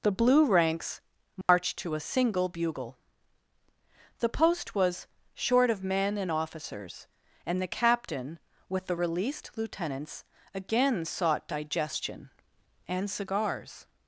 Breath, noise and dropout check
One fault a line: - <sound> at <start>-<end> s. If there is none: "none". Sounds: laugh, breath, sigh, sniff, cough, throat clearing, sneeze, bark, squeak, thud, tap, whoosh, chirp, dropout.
- dropout at 1.4-1.5 s